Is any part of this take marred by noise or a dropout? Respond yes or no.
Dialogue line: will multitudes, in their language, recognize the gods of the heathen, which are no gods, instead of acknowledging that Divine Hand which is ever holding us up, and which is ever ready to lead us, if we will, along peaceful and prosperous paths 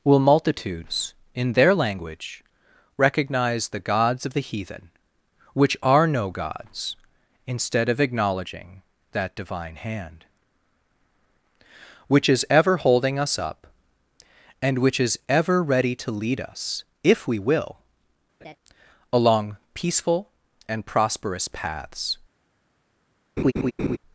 yes